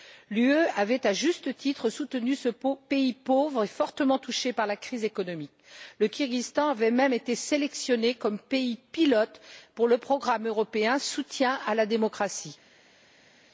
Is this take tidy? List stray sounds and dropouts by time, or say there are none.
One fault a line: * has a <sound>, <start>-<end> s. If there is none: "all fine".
all fine